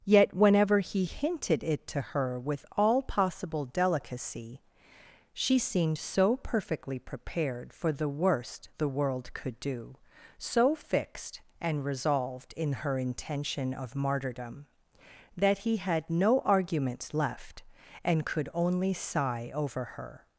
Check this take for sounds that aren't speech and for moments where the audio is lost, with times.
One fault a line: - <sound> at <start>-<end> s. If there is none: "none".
none